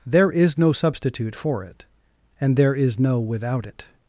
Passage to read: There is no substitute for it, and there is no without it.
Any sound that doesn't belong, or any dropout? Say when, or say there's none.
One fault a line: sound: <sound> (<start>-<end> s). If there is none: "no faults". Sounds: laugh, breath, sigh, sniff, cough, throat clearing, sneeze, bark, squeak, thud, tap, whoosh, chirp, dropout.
no faults